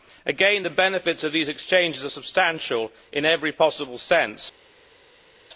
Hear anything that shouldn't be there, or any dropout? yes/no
no